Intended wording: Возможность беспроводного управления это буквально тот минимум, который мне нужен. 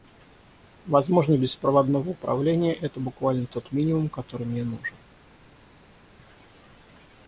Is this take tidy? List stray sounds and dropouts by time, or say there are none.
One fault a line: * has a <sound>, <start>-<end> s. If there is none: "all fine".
all fine